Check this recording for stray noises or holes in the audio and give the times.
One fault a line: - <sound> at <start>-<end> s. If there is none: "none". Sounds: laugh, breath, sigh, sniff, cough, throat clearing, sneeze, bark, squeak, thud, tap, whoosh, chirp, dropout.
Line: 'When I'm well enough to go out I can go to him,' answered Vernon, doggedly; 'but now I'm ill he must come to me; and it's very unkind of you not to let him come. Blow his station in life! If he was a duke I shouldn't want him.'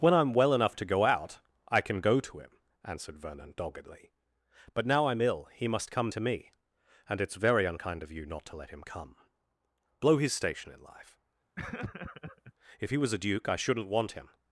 - laugh at 11.6-12.5 s